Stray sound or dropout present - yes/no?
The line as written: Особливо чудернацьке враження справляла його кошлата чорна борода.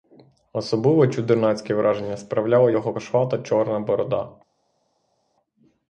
no